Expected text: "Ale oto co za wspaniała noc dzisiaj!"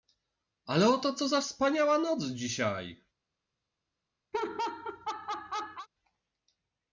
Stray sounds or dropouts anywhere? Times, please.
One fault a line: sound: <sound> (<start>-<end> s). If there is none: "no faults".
sound: laugh (4.3-5.9 s)